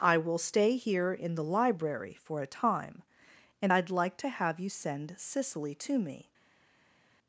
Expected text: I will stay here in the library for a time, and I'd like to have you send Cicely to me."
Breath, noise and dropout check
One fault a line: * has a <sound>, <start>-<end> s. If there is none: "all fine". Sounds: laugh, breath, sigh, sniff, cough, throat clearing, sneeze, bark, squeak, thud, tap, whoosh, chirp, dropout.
all fine